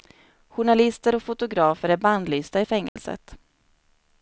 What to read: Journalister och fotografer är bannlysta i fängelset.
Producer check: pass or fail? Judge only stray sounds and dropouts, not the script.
fail